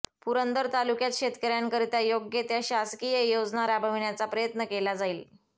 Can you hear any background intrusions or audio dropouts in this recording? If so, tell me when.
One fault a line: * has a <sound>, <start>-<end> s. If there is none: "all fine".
all fine